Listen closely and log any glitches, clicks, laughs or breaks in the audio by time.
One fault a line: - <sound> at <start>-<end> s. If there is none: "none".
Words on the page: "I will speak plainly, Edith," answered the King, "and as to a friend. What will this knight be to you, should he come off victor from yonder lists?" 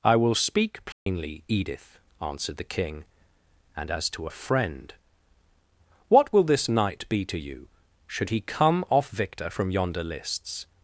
- dropout at 0.9-1.1 s